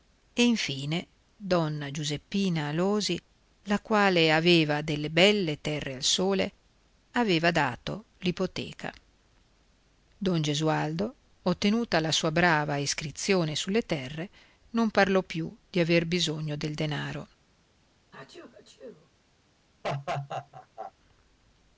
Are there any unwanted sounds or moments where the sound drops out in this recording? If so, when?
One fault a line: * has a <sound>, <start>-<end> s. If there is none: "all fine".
* has a sneeze, 18.1-19.1 s
* has a laugh, 19.8-20.9 s